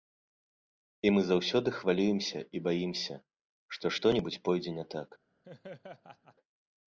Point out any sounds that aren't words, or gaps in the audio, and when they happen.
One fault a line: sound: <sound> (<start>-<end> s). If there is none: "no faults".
sound: laugh (5.4-6.4 s)